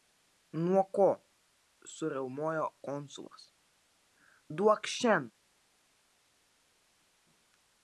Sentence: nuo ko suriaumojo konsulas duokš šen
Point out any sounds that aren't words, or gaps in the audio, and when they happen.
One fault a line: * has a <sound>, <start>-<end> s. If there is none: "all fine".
all fine